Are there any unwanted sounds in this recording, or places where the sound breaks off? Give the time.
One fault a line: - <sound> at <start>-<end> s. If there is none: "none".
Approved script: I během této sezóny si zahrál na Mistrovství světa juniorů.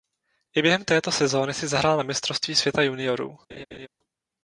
- laugh at 3.5-3.9 s